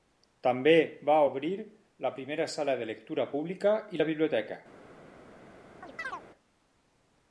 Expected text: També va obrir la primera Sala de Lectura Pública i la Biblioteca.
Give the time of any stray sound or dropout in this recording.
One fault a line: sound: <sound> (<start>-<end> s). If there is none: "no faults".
sound: chirp (5.8-6.2 s)